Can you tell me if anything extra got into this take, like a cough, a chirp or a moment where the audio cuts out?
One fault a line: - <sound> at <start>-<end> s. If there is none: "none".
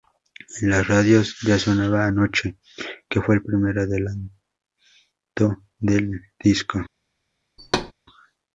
- thud at 7.6-7.9 s